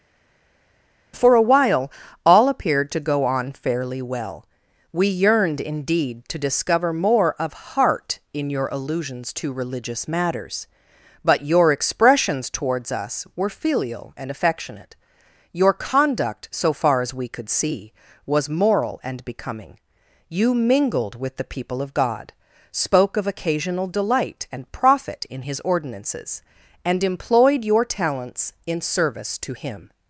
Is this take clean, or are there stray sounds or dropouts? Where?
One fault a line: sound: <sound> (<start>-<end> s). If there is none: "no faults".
no faults